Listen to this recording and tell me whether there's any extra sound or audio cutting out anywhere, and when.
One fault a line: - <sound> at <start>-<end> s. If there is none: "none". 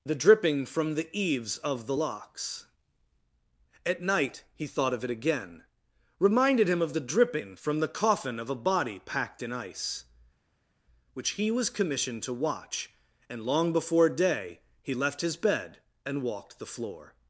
none